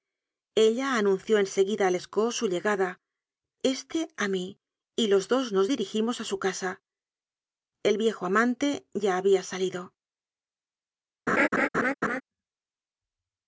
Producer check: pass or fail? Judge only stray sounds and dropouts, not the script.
fail